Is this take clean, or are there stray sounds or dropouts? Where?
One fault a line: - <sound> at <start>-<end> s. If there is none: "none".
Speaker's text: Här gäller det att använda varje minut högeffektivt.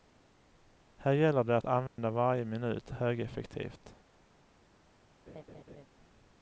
- dropout at 1.9-2.0 s
- laugh at 5.3-5.9 s